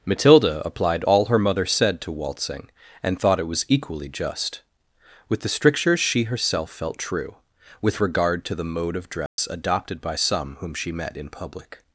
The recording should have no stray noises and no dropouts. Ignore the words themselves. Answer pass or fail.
fail